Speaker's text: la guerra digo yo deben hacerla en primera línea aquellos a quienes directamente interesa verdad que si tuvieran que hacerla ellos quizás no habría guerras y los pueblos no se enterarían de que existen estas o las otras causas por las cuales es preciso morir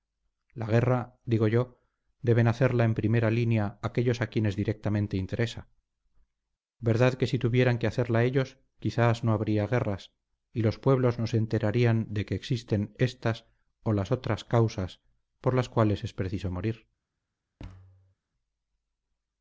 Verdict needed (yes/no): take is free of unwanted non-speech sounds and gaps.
no